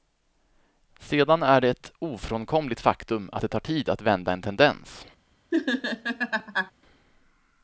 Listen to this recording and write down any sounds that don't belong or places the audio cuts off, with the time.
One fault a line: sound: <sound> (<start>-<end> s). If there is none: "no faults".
sound: laugh (5.5-6.7 s)